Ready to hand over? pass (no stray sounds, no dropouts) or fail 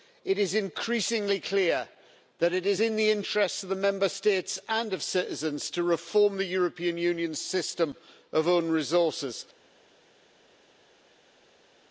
pass